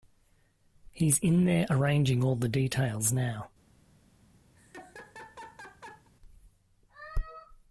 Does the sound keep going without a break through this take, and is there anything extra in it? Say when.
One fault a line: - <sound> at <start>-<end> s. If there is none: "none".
- laugh at 4.6-6.1 s